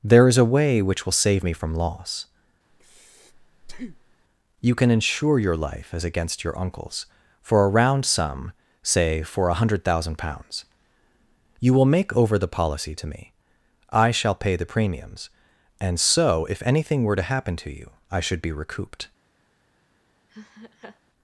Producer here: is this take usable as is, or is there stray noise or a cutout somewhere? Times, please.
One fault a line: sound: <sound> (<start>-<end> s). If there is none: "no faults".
sound: breath (2.7-4.2 s)
sound: laugh (20.3-21.0 s)